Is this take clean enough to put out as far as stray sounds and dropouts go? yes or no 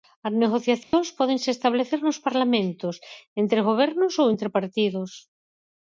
no